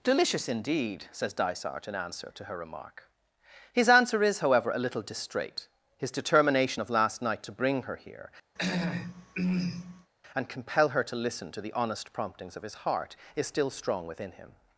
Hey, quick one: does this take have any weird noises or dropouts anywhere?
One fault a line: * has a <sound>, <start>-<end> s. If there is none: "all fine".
* has a throat clearing, 8.6-10.1 s